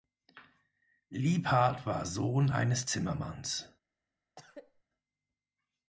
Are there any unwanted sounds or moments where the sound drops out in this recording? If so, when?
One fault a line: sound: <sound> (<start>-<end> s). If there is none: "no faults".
sound: cough (4.4-4.8 s)